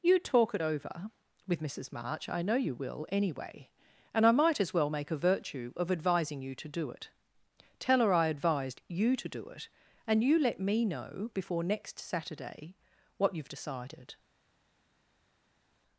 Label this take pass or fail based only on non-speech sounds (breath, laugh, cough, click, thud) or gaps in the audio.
pass